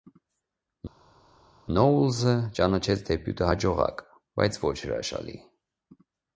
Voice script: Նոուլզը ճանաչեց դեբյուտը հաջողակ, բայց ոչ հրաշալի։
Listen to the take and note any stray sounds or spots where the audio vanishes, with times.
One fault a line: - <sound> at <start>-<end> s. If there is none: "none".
none